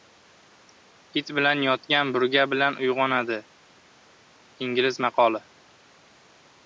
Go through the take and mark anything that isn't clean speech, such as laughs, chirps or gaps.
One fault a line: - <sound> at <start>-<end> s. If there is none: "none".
none